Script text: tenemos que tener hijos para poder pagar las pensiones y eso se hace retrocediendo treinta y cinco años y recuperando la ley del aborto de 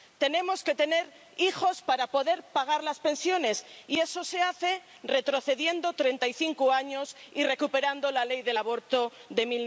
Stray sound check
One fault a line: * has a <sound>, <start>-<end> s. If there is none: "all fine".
all fine